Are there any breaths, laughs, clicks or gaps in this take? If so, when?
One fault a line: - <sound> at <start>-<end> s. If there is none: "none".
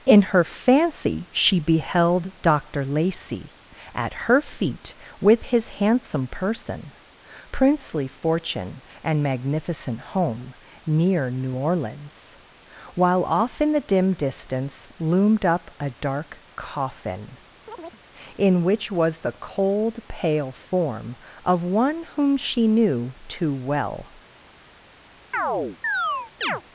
- chirp at 17.7-18.0 s
- chirp at 25.3-26.6 s